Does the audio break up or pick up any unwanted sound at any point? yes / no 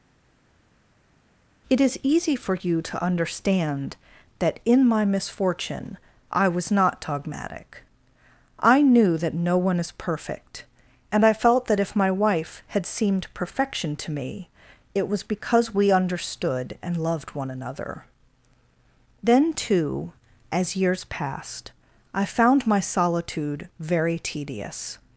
no